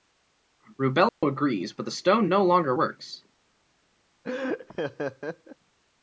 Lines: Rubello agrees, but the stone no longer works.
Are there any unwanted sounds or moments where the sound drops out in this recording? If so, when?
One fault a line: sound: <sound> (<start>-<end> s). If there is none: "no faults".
sound: dropout (1.1-1.2 s)
sound: laugh (4.2-5.6 s)